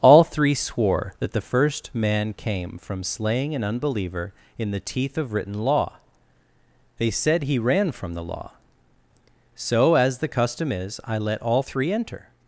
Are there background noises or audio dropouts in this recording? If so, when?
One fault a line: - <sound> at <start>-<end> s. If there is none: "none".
none